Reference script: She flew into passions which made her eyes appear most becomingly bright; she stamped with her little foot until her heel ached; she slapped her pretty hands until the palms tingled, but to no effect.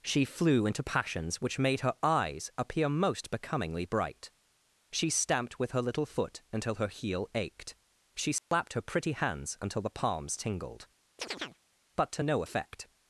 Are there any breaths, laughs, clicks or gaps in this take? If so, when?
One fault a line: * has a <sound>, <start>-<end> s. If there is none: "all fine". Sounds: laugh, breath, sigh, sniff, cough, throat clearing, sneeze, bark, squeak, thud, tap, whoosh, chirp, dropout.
* has a dropout, 8.4-8.5 s
* has a chirp, 11.2-11.6 s